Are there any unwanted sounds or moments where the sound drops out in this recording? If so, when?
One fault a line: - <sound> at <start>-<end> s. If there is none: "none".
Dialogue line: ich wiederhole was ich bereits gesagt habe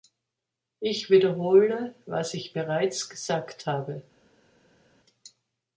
none